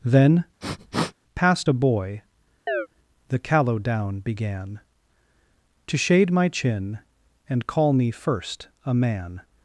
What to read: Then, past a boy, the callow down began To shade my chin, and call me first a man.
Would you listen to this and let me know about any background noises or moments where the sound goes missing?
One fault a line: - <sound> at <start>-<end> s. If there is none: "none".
- sniff at 0.6-1.1 s
- chirp at 2.7-2.9 s